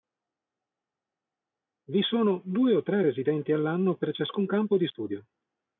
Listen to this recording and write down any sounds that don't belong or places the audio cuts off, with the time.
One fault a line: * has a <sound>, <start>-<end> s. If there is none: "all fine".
all fine